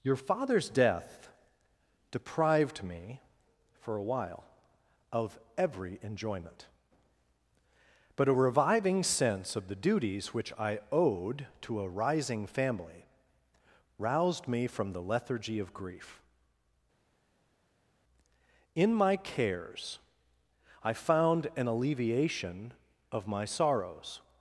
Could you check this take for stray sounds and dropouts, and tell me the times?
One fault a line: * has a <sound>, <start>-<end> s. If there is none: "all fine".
all fine